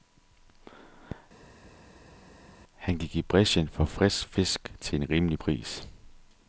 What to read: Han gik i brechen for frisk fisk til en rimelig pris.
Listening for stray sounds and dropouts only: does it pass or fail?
pass